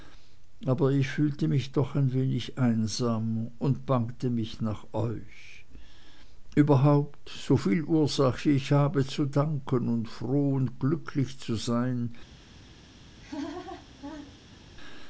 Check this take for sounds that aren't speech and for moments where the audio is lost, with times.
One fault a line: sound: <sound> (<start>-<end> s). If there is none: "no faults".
sound: laugh (13.2-14.7 s)